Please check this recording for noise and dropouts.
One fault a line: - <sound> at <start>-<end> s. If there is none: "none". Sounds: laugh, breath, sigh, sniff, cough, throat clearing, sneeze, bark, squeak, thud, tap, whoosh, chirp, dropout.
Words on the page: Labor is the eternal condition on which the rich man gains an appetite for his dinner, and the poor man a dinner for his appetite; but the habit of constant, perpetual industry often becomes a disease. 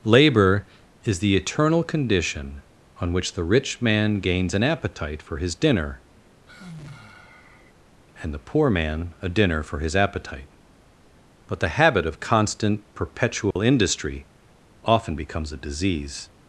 - sigh at 6.5-7.7 s
- dropout at 13.5-13.6 s